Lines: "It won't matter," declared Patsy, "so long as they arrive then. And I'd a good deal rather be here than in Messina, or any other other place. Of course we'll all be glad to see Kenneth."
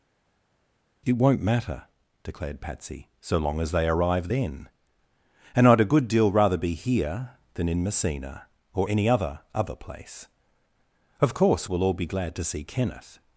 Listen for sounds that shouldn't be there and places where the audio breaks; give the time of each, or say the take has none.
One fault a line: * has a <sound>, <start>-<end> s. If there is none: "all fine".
all fine